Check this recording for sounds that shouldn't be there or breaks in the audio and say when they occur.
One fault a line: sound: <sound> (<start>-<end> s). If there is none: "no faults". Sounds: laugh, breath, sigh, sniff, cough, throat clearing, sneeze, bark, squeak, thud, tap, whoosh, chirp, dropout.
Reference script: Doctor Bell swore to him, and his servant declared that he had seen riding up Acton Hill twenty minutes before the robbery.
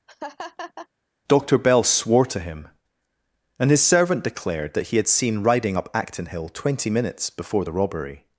sound: laugh (0.1-0.9 s)